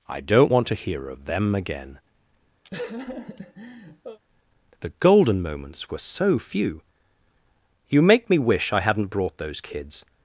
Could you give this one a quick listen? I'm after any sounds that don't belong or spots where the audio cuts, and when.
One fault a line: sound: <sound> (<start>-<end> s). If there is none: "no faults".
sound: laugh (2.6-4.2 s)